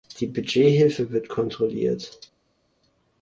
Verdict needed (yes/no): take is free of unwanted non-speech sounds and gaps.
yes